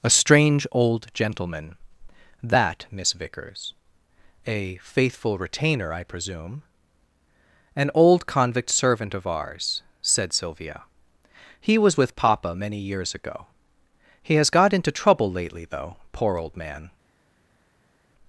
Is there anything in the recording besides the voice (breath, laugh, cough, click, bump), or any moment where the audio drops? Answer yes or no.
no